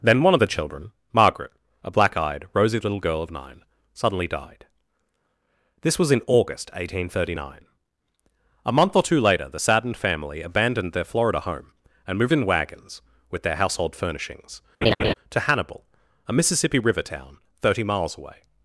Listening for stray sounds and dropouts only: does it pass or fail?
fail